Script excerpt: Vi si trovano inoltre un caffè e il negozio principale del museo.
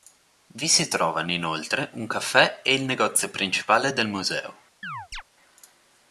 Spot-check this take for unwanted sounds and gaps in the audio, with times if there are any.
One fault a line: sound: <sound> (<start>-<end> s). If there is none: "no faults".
sound: chirp (4.8-5.2 s)